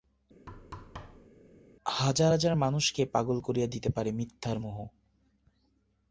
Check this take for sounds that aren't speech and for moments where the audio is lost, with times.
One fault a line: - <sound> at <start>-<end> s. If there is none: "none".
- thud at 0.5-1.3 s